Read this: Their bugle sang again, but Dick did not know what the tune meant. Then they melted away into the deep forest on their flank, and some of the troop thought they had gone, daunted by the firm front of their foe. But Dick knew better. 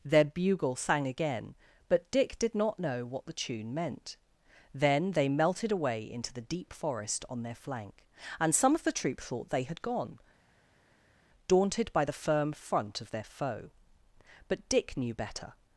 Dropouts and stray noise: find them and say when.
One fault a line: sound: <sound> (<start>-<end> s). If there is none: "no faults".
no faults